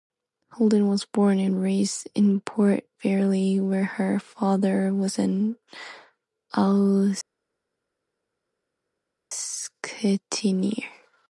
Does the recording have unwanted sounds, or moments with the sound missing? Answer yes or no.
no